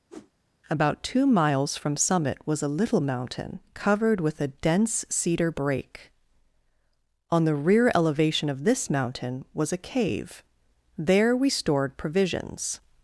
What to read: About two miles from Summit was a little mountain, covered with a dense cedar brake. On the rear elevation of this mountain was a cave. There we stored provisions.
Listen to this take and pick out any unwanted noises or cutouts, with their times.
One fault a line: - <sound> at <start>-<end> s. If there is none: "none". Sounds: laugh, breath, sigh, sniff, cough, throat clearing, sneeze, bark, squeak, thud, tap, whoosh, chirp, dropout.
- whoosh at 0.1-0.3 s